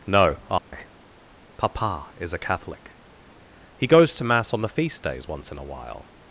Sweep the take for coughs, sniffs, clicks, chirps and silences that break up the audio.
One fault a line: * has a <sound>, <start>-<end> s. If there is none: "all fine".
* has a dropout, 0.6-0.7 s